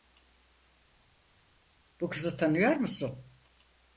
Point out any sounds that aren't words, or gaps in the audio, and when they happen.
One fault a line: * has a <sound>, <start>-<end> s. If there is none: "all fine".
all fine